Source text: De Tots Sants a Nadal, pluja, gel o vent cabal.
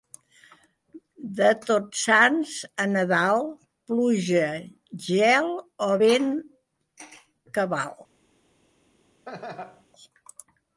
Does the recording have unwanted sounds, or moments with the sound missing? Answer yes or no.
yes